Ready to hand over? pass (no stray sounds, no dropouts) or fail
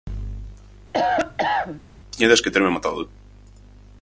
fail